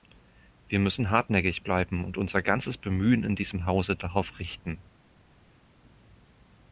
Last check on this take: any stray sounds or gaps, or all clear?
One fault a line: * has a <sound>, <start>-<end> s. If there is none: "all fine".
all fine